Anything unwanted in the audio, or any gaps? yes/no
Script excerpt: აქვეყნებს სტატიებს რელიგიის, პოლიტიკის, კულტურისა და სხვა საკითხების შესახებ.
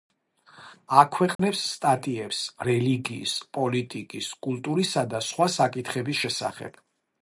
yes